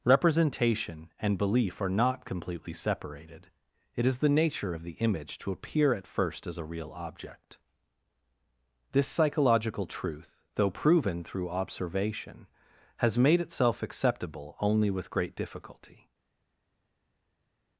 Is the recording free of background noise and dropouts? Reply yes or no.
yes